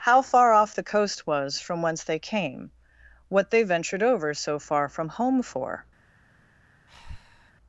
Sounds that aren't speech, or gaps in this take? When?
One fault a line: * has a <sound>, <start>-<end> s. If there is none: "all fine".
* has a breath, 6.9-7.5 s